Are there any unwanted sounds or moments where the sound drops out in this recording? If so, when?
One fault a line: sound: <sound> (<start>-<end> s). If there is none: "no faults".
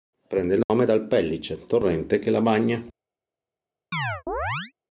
sound: dropout (0.6-0.7 s)
sound: chirp (3.9-4.7 s)